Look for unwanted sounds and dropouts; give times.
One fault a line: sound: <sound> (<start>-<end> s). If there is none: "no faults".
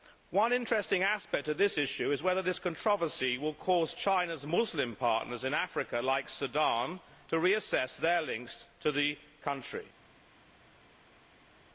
no faults